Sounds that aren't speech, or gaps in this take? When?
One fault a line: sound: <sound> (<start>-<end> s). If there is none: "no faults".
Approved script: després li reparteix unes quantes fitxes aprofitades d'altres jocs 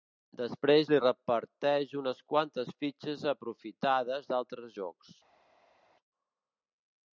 no faults